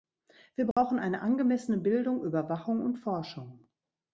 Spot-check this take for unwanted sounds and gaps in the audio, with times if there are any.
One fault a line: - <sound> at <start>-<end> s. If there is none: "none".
- dropout at 0.7-0.8 s